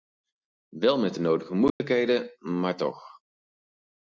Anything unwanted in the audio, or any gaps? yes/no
yes